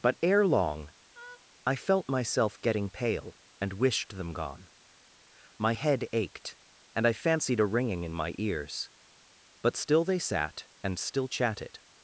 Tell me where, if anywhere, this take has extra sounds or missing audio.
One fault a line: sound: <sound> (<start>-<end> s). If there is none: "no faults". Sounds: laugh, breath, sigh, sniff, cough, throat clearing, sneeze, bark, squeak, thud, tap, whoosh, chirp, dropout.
sound: laugh (1.1-1.5 s)